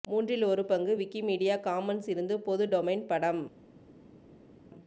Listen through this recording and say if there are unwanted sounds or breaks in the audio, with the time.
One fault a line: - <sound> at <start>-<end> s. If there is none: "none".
none